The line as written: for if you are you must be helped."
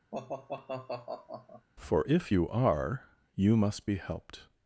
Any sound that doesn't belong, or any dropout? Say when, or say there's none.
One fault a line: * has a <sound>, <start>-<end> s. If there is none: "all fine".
* has a sigh, 0.1-1.7 s